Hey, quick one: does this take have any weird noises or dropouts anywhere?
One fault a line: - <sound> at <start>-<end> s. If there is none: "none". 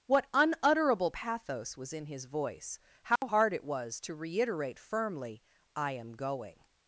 - dropout at 3.2-3.2 s